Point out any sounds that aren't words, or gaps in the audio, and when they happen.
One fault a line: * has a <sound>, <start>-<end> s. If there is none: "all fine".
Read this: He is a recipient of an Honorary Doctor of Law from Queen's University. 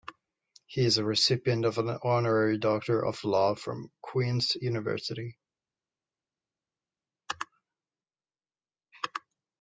all fine